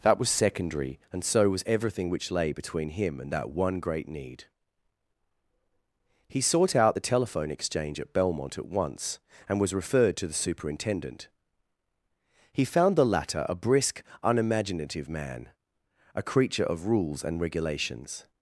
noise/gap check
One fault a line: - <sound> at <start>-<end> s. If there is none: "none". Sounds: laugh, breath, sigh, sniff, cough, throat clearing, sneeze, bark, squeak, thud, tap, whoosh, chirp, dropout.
none